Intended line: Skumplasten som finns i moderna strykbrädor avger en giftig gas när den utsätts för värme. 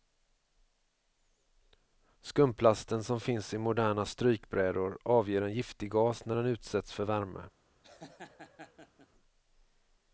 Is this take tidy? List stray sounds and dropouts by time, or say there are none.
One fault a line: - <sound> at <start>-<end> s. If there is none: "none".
- laugh at 7.8-9.1 s